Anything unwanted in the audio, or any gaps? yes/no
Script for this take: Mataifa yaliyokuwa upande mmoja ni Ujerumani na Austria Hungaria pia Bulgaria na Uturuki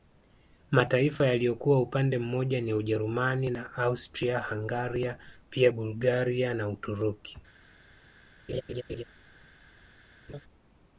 yes